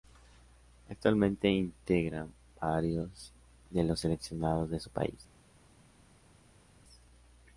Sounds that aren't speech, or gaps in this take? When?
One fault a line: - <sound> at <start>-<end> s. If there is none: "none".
none